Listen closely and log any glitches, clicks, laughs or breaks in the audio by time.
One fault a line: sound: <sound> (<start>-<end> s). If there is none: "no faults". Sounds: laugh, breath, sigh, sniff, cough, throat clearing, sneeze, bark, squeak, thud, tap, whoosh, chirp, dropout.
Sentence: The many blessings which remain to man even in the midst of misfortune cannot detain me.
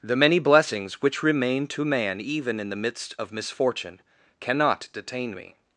no faults